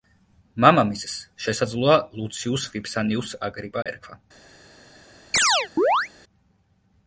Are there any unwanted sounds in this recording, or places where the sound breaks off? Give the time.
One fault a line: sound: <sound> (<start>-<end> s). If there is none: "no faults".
sound: dropout (3.8-3.9 s)
sound: chirp (5.3-6.1 s)